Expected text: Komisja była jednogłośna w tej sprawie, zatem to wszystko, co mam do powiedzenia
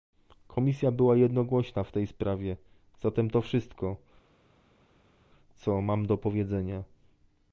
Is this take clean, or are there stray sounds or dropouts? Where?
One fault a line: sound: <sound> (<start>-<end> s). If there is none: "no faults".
no faults